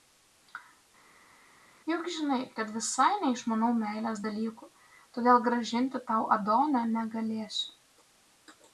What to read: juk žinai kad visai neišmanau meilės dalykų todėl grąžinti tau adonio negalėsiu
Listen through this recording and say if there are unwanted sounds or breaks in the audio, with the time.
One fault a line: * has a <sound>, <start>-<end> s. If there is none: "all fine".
all fine